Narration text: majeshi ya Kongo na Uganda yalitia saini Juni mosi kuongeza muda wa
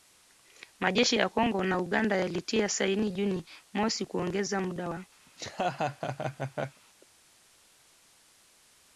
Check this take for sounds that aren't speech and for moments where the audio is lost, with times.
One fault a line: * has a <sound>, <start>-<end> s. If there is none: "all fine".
* has a laugh, 5.3-6.8 s